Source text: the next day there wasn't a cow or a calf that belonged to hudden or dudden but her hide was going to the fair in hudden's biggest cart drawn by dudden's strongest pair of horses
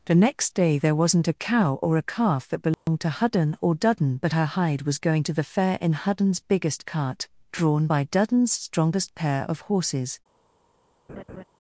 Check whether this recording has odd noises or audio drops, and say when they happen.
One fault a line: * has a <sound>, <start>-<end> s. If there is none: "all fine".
* has a dropout, 2.7-2.9 s
* has a laugh, 11.1-11.4 s